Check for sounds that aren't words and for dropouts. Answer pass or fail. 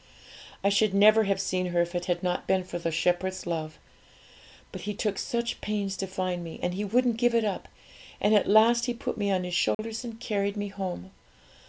fail